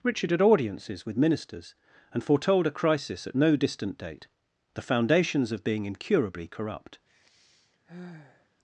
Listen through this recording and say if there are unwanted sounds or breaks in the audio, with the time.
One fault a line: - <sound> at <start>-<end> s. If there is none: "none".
- sigh at 7.1-8.5 s